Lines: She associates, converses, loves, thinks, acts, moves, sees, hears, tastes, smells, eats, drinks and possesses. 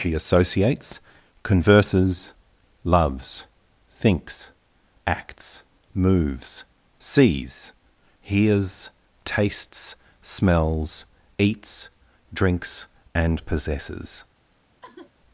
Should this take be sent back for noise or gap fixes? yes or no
yes